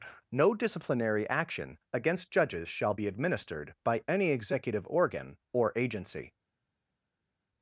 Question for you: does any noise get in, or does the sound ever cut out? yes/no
no